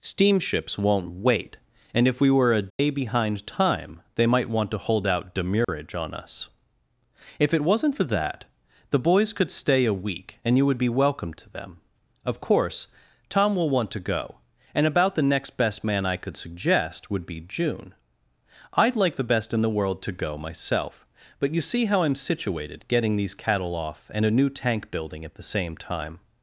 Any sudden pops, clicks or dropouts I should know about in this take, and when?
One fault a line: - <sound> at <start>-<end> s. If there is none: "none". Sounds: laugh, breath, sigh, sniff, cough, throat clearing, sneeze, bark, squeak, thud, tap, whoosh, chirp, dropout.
- dropout at 2.7-2.8 s
- dropout at 5.6-5.7 s